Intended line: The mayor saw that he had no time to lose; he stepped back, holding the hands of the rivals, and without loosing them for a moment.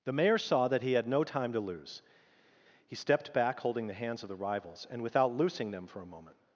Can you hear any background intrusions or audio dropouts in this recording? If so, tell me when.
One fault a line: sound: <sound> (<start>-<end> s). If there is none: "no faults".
no faults